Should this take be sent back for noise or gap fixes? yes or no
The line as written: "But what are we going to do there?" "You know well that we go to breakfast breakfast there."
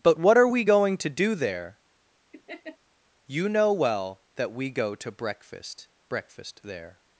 yes